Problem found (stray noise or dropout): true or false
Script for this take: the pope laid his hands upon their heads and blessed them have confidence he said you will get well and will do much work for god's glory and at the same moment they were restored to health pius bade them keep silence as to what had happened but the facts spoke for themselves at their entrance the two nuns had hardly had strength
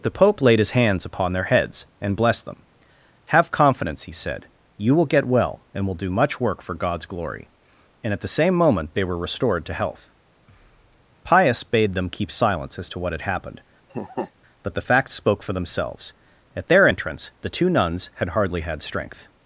true